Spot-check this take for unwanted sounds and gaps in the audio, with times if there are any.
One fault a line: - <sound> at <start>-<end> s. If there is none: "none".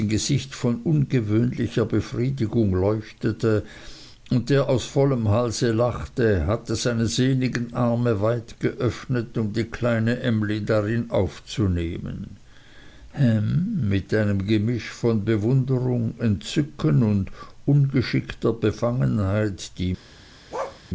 - bark at 20.5-20.8 s